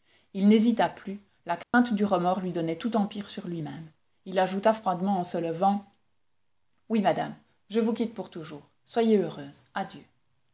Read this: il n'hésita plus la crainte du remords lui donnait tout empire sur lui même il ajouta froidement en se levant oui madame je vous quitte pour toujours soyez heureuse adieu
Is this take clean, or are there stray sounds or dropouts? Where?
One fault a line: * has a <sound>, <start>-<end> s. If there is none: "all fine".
* has a dropout, 1.6-1.7 s